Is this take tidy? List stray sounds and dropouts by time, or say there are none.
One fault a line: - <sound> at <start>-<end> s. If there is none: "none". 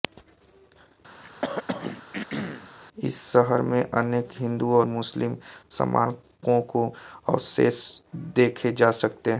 - throat clearing at 1.2-2.7 s